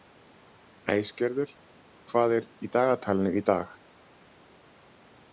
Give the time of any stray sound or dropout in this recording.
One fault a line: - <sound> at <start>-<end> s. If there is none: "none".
none